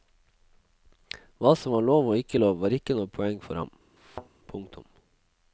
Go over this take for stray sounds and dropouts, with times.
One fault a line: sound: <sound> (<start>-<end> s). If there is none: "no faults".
sound: thud (4.0-4.3 s)